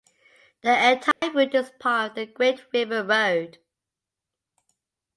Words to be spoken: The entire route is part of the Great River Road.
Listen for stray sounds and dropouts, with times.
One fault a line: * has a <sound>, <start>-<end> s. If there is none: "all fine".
* has a dropout, 1.1-1.2 s